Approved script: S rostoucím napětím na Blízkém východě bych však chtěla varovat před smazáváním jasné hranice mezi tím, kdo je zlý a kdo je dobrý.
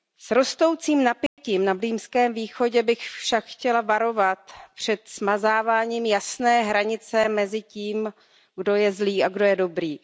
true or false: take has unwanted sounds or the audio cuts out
true